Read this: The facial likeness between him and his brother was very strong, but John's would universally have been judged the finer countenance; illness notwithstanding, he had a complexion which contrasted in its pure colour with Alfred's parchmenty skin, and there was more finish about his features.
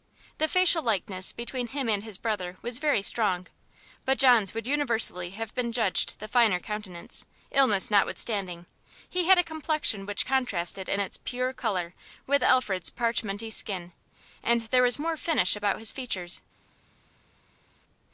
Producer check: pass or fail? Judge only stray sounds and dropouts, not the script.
pass